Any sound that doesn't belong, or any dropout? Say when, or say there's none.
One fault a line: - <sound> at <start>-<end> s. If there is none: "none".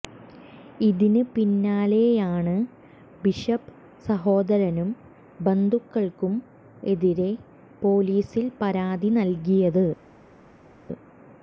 none